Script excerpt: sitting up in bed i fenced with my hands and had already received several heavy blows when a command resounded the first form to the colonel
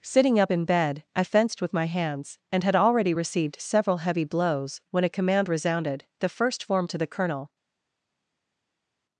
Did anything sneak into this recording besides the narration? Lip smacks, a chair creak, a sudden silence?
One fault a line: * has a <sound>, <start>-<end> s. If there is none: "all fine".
all fine